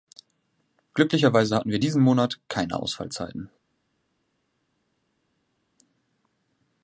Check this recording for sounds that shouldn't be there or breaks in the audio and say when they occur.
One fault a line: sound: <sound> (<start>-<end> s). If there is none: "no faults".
no faults